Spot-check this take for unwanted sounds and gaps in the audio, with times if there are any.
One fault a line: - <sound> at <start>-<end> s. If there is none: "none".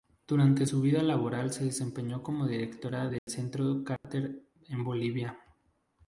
- dropout at 3.2-3.3 s
- dropout at 4.0-4.0 s